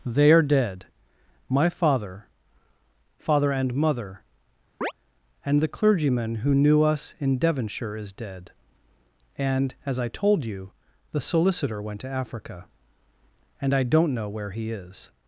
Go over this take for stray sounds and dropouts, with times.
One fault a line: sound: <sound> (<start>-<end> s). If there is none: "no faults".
sound: chirp (4.8-4.9 s)